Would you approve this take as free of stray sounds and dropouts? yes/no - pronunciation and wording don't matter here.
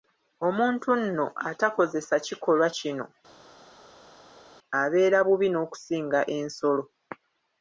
yes